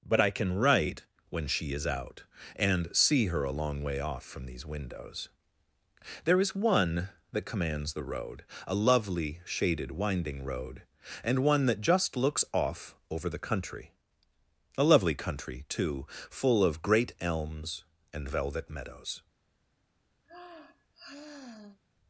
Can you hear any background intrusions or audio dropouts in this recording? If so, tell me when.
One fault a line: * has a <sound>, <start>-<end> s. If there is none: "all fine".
* has a sigh, 20.2-21.8 s